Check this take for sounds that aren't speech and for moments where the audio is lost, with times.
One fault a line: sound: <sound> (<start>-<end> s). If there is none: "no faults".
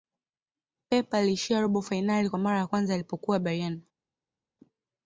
no faults